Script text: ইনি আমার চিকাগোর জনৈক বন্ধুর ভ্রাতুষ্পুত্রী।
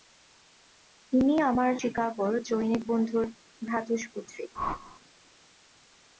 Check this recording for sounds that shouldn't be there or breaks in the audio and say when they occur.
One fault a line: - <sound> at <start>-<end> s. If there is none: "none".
- whoosh at 4.5-5.0 s